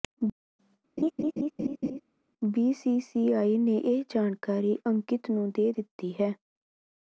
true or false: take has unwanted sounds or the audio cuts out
true